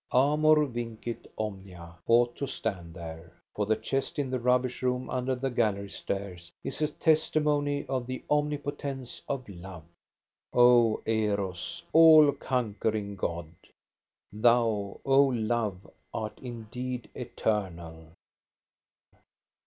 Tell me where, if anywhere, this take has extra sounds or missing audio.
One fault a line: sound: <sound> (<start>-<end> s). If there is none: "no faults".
no faults